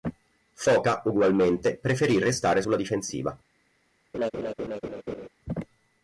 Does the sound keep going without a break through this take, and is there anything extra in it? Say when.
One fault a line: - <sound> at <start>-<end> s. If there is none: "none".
- laugh at 4.1-5.3 s